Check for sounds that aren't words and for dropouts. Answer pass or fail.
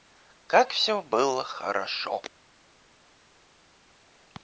pass